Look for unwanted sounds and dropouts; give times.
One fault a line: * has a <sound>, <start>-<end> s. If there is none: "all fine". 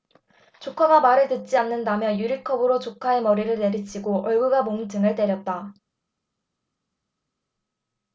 all fine